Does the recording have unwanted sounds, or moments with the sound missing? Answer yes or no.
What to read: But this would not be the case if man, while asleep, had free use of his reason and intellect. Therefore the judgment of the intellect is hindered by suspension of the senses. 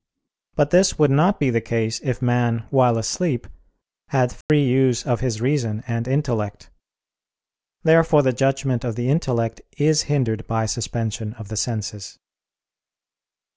yes